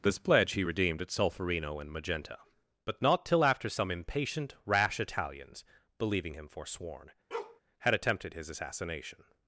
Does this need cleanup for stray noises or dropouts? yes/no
yes